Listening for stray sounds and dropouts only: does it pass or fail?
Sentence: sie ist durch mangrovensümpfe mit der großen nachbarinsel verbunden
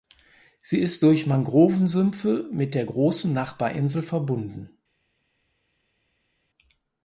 pass